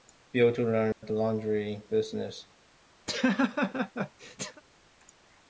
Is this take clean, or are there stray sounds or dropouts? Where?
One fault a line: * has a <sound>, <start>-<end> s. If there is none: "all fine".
* has a dropout, 0.9-1.0 s
* has a laugh, 3.1-4.6 s